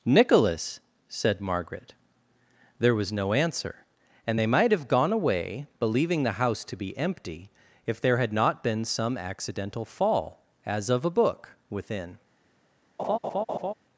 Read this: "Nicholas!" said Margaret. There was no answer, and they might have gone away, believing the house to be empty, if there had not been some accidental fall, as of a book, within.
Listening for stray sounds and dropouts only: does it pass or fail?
fail